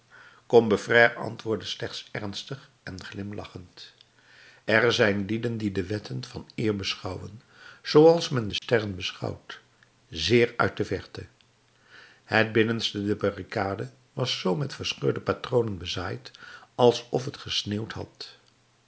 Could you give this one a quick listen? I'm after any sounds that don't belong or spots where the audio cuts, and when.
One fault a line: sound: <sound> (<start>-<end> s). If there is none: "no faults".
sound: dropout (8.6-8.6 s)